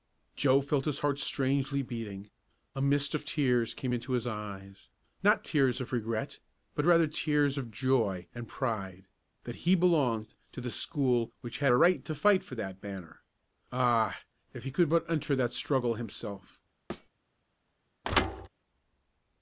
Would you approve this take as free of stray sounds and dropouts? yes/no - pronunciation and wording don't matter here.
no